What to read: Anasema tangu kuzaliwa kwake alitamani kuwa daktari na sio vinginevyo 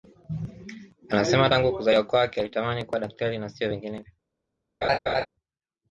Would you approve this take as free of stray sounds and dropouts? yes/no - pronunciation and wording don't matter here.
no